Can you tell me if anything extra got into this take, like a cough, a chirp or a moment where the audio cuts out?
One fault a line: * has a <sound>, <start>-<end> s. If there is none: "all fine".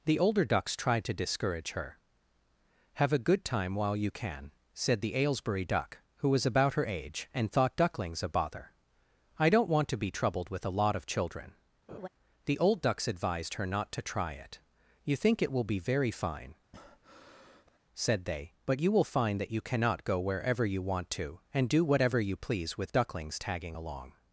* has a laugh, 11.9-12.1 s
* has a breath, 16.7-17.8 s